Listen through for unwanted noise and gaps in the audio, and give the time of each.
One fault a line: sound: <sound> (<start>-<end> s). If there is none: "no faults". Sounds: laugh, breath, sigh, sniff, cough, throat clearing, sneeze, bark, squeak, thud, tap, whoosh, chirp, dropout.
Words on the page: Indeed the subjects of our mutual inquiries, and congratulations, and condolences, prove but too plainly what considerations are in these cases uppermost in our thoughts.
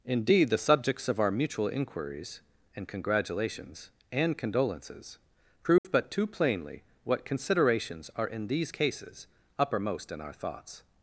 sound: dropout (5.8-5.8 s)